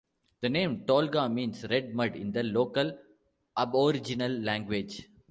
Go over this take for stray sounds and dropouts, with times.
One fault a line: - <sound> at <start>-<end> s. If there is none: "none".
none